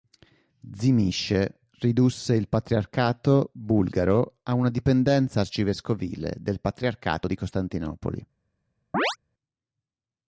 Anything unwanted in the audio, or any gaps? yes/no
yes